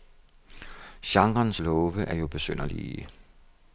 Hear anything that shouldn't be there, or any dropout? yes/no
no